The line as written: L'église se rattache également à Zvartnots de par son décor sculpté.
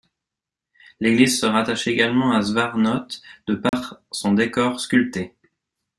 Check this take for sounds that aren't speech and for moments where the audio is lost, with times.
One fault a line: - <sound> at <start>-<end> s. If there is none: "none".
- dropout at 3.7-3.7 s